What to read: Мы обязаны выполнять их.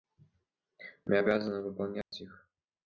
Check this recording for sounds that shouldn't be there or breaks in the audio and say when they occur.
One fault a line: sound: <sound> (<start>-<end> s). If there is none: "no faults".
sound: dropout (2.0-2.1 s)